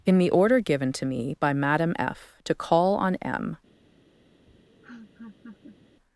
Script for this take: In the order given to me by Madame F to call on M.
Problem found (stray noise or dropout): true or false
true